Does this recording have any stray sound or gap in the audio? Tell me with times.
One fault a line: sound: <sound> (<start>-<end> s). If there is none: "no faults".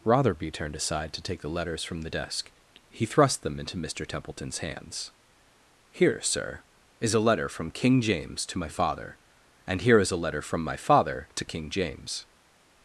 no faults